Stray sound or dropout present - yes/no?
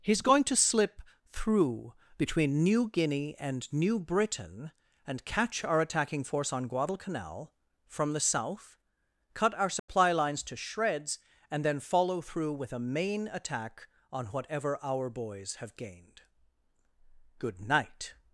yes